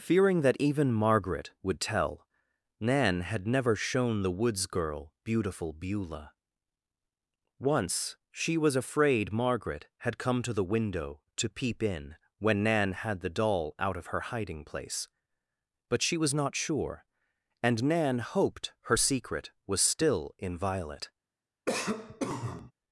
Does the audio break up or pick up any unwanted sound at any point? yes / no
yes